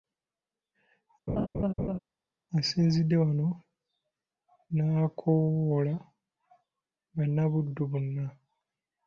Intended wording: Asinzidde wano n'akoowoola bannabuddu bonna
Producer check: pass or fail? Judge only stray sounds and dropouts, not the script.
fail